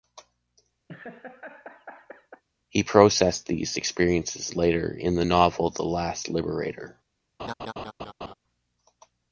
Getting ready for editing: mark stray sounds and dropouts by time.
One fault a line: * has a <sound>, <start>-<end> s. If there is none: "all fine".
* has a laugh, 0.9-2.4 s
* has a laugh, 7.4-8.3 s